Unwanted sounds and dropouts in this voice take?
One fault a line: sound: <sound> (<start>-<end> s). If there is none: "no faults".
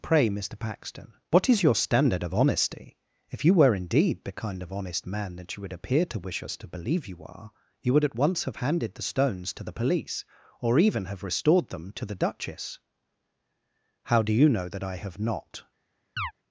sound: chirp (16.2-16.3 s)